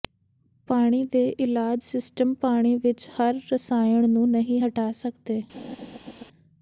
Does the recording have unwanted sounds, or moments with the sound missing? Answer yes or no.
yes